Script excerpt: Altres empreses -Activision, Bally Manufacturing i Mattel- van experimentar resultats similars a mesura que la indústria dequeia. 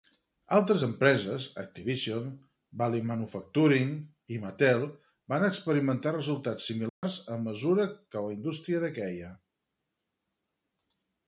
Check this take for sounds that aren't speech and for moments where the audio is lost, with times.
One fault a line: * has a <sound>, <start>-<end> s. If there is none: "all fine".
* has a dropout, 6.9-7.0 s